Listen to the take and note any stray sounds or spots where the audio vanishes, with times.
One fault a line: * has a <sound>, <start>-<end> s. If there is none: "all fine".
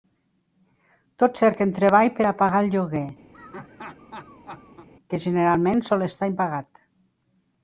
* has a laugh, 3.3-4.9 s